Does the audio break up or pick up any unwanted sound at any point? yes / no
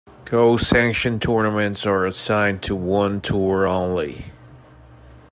no